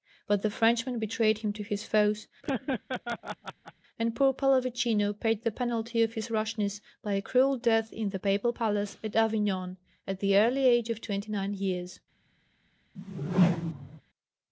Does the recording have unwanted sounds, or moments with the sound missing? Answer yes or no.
yes